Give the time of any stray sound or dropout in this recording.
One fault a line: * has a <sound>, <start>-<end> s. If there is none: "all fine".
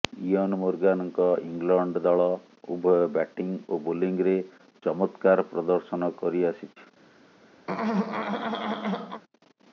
* has a throat clearing, 7.7-9.2 s